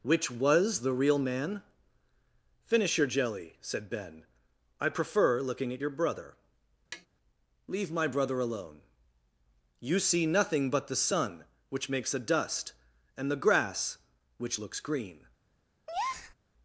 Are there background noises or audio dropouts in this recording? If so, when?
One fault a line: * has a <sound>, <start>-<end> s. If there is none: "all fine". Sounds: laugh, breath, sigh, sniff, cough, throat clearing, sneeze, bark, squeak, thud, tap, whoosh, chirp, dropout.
* has a tap, 6.9-7.1 s
* has a breath, 15.9-16.3 s